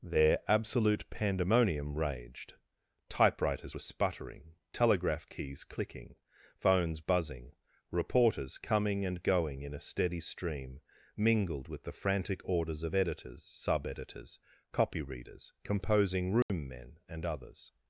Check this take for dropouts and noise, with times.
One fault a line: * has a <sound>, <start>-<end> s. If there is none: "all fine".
* has a dropout, 16.4-16.5 s